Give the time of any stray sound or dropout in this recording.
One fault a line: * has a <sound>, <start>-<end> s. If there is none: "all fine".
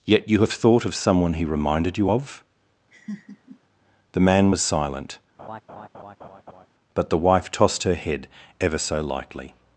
* has a laugh, 2.9-3.6 s
* has a laugh, 5.4-6.7 s